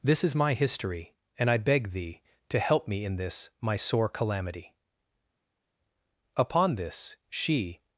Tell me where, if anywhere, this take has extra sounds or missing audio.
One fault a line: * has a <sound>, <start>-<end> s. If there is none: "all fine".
all fine